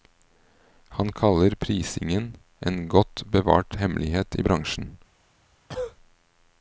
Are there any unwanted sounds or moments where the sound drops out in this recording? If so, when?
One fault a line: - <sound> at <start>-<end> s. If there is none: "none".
- cough at 5.7-6.0 s